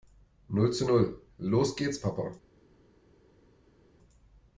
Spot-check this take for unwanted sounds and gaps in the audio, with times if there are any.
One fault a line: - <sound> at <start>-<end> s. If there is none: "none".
none